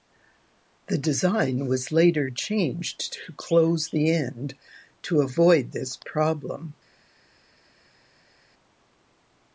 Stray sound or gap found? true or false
false